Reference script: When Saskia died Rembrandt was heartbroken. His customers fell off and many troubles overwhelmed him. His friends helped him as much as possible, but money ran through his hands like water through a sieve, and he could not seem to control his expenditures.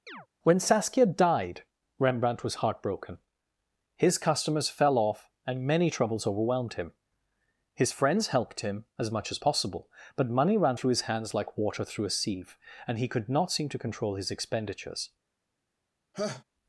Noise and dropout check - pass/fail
fail